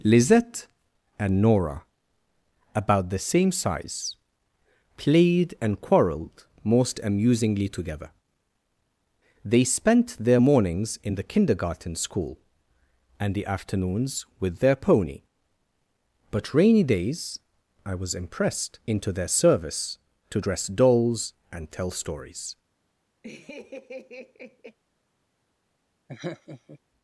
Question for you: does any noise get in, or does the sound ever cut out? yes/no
yes